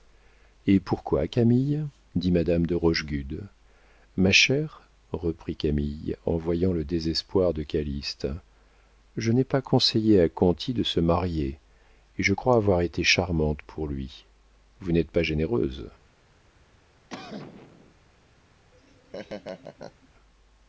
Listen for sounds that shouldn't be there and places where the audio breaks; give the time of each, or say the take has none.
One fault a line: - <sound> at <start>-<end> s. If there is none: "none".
- cough at 17.1-17.9 s
- laugh at 18.7-20.1 s